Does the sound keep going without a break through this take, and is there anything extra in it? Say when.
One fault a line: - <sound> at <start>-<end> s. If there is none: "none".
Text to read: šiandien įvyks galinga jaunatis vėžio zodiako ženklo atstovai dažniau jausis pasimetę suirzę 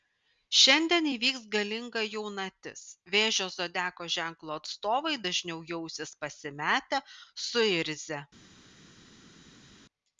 none